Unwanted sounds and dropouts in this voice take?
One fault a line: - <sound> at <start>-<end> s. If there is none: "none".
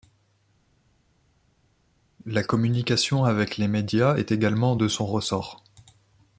none